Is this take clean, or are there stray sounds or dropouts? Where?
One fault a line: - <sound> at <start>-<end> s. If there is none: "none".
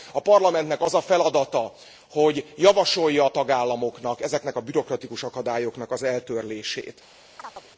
- chirp at 7.4-7.7 s